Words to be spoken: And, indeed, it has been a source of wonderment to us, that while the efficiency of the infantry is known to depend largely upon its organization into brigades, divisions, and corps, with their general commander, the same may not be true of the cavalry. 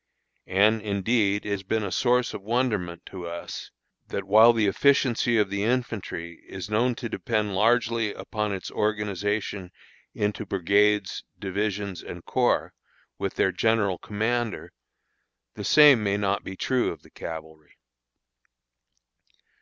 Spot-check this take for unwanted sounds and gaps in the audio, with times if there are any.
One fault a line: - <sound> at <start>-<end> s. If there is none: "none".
none